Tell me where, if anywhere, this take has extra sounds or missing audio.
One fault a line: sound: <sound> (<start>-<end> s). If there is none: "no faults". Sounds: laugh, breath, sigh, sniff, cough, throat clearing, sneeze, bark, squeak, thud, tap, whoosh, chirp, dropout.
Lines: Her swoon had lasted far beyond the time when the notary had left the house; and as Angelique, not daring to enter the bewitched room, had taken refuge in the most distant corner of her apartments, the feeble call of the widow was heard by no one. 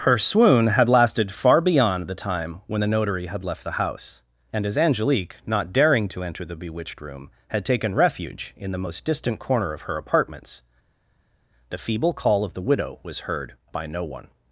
no faults